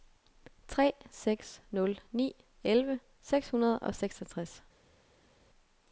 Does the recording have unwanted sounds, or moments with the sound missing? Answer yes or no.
no